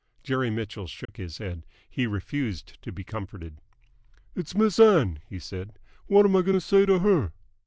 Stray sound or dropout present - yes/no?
yes